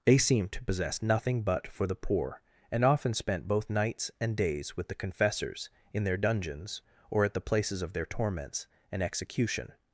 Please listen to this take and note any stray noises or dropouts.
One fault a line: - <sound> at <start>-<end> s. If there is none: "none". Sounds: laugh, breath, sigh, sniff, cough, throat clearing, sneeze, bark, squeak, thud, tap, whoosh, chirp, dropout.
none